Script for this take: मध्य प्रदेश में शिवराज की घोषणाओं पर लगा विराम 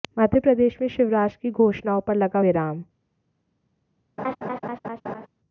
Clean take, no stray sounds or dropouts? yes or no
no